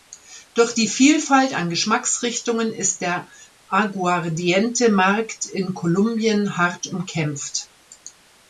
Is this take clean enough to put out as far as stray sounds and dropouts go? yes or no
yes